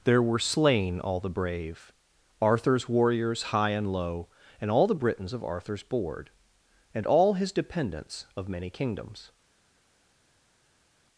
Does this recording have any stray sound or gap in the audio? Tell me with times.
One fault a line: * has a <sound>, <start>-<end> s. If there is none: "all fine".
all fine